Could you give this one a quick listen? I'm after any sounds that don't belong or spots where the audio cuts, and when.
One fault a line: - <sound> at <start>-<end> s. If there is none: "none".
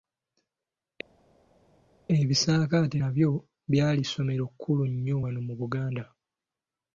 none